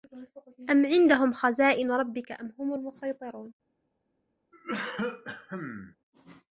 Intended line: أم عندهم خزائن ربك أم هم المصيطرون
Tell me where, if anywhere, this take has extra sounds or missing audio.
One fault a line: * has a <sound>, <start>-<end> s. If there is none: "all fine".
* has a cough, 4.5-6.0 s